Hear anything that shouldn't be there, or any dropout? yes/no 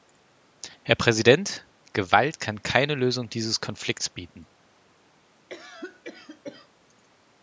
yes